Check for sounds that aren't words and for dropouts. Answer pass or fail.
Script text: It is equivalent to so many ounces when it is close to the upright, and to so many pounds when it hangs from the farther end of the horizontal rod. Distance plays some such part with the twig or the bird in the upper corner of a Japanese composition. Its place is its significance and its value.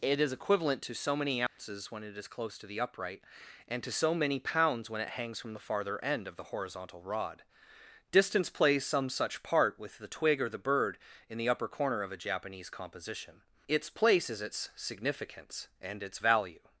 fail